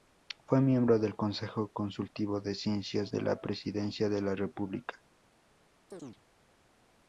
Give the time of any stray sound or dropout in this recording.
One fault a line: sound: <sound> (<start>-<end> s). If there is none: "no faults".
sound: chirp (5.9-6.2 s)